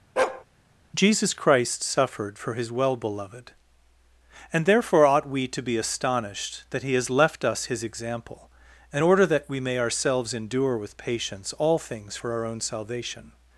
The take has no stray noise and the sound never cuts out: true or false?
false